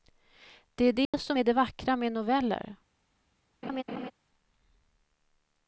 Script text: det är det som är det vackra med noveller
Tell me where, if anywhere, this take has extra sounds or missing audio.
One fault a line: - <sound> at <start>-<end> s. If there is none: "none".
- dropout at 1.1-1.1 s
- laugh at 3.6-4.1 s